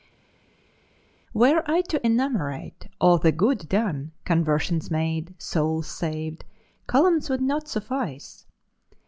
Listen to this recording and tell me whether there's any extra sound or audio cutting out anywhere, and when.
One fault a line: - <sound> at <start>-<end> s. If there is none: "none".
none